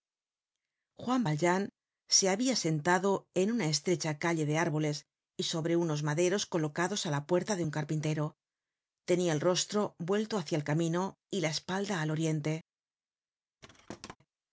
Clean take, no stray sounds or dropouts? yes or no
no